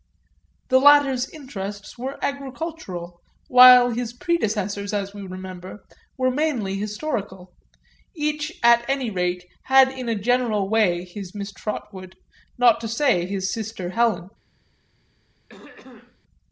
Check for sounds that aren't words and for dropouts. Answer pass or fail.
fail